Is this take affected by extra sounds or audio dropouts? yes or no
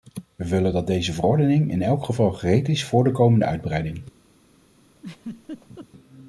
yes